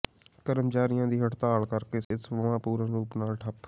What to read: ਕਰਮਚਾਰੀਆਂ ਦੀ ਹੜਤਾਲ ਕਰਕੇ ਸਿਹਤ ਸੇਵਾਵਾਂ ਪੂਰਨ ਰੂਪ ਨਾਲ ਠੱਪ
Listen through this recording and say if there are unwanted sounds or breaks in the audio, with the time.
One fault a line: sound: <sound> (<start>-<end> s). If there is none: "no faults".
sound: dropout (2.0-2.1 s)